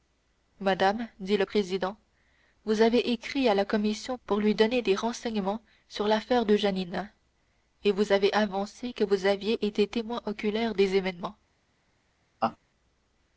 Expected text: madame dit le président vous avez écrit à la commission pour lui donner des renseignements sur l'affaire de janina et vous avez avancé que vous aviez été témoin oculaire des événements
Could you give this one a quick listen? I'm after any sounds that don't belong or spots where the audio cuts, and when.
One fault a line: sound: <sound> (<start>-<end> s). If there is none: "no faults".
sound: laugh (12.4-12.6 s)